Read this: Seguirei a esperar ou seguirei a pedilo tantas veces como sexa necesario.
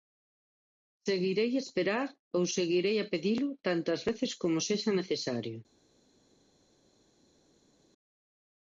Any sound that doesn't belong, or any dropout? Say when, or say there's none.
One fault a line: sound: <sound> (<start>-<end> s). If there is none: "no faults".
no faults